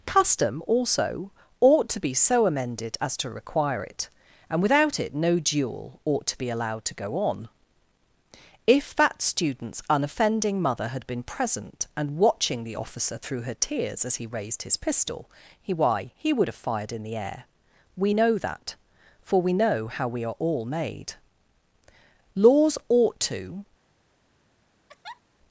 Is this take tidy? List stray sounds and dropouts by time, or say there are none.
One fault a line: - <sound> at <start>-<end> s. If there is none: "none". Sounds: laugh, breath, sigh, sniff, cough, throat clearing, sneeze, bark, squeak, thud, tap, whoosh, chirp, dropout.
- laugh at 24.9-25.2 s